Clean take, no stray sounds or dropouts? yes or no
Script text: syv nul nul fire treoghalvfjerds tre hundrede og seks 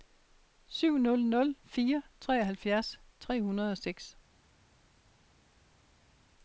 yes